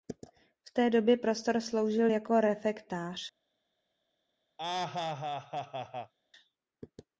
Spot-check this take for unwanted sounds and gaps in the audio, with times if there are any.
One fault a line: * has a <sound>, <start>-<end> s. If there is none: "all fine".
* has a laugh, 4.6-6.1 s